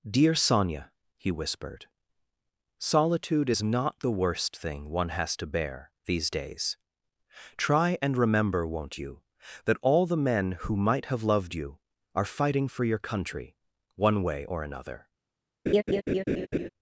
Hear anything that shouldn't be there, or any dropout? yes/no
yes